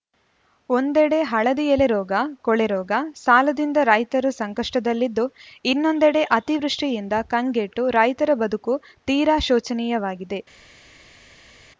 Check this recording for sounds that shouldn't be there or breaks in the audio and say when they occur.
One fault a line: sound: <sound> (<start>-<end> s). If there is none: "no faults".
no faults